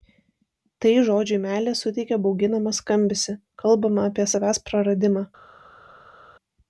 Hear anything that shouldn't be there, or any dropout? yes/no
no